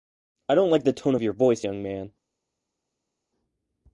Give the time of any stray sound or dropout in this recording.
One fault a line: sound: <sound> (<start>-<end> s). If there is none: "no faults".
no faults